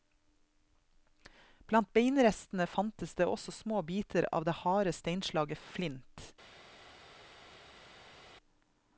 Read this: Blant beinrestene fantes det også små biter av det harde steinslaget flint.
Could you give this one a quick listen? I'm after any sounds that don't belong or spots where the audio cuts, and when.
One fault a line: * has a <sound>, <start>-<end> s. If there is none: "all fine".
all fine